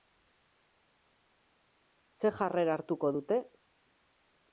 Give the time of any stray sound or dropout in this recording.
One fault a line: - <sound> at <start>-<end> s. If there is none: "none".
none